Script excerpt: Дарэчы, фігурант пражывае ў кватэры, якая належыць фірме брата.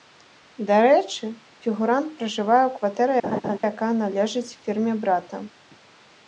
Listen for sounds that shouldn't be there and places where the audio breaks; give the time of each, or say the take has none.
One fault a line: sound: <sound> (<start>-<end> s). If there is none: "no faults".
sound: laugh (3.2-3.6 s)